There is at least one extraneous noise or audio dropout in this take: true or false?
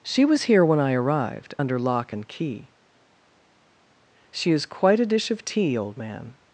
false